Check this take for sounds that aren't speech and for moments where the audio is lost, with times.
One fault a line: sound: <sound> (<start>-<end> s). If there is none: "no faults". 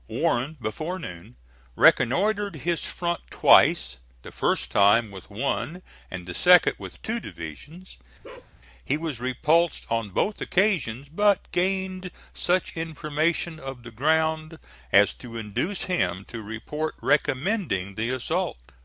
sound: bark (8.2-8.5 s)